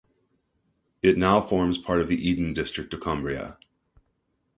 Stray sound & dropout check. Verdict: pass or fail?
pass